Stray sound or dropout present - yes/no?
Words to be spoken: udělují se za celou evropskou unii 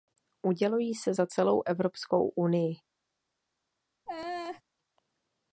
yes